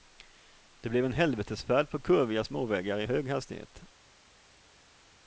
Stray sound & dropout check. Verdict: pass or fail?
pass